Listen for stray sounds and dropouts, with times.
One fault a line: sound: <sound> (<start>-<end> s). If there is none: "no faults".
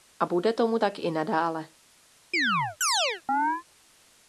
sound: chirp (2.3-3.6 s)